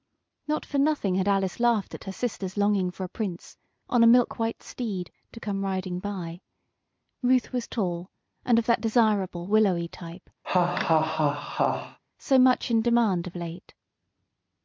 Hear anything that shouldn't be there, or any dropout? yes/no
yes